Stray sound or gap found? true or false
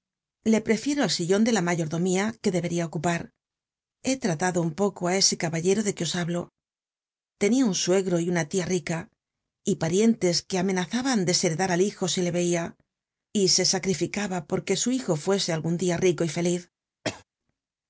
true